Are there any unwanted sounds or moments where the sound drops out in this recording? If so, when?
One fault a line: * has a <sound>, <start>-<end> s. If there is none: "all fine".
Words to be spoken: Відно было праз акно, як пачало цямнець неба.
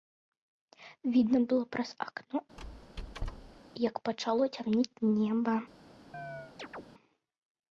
* has a squeak, 2.6-3.6 s
* has a chirp, 6.1-6.8 s